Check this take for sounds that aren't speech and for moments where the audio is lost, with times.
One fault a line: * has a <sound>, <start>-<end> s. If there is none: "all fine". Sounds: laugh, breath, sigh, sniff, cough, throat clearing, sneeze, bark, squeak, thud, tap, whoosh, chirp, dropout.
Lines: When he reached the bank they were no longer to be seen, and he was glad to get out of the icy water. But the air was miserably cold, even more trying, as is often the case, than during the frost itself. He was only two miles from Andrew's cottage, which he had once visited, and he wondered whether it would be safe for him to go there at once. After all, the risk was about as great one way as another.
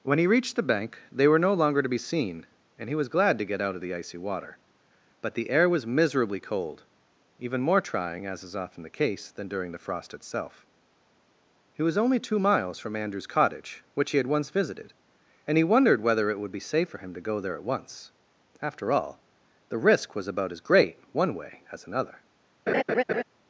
* has a laugh, 22.7-23.2 s